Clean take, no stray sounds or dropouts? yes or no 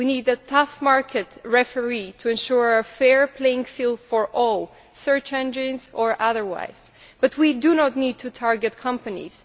yes